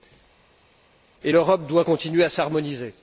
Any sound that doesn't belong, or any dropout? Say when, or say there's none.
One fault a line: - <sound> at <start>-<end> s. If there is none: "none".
none